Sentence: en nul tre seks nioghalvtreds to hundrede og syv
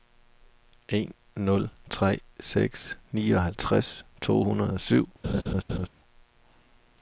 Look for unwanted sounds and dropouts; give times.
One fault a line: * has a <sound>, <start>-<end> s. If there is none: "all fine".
* has a laugh, 5.2-5.9 s